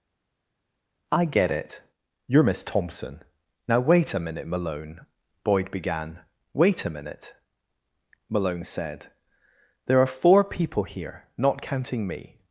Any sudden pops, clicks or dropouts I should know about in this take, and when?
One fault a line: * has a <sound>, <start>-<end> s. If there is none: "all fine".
all fine